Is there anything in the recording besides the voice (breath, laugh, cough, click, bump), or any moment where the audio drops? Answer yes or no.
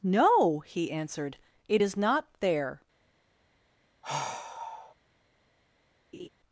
yes